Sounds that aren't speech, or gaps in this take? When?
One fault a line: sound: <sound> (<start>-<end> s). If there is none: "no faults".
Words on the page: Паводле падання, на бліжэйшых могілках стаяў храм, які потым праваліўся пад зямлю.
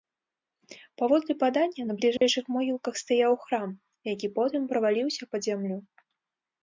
sound: dropout (2.2-2.2 s)